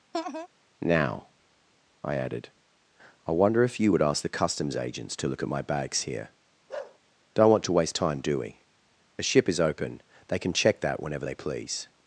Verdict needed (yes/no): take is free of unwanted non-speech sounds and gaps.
no